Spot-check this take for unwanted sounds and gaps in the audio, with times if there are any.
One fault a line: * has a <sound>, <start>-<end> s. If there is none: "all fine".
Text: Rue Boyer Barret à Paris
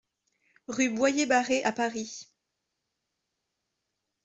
all fine